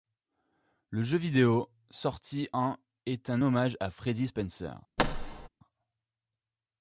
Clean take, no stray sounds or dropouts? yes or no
no